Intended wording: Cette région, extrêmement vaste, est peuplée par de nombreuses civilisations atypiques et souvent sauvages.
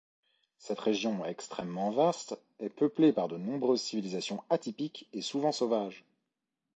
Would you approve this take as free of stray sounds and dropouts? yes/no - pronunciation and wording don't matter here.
yes